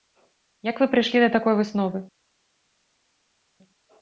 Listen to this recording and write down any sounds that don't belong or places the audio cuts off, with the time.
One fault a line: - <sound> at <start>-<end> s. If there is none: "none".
none